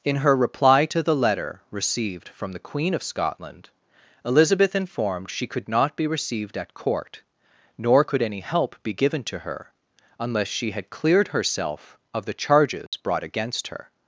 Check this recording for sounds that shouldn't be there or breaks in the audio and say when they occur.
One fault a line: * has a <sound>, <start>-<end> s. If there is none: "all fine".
* has a dropout, 12.9-12.9 s